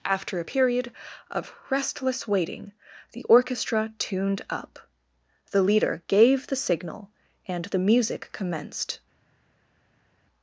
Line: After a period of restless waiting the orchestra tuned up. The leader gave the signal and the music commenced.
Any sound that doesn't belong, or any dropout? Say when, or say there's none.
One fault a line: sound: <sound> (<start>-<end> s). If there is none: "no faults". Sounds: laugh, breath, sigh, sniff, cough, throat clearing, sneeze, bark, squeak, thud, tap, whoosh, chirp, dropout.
no faults